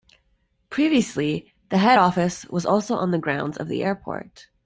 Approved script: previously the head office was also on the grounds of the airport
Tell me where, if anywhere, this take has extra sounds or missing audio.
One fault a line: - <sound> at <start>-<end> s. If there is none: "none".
none